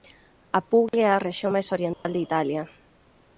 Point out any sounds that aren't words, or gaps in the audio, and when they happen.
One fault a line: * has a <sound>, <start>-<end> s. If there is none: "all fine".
* has a dropout, 0.9-0.9 s
* has a dropout, 1.9-2.0 s